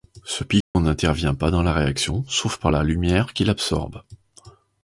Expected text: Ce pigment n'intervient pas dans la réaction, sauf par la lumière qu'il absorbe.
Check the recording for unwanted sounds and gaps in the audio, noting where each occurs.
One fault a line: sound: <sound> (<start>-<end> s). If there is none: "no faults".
sound: dropout (0.6-0.7 s)